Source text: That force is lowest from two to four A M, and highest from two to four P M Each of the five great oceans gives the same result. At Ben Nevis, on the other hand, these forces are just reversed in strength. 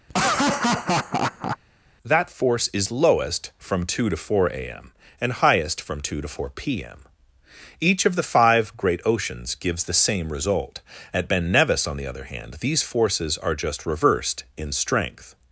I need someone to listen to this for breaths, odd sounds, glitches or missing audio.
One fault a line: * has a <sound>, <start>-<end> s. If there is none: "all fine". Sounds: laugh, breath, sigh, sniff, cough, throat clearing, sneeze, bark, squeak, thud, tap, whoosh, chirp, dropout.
* has a laugh, 0.1-1.6 s